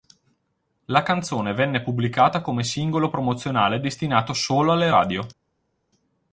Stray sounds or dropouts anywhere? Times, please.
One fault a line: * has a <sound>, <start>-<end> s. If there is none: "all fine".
all fine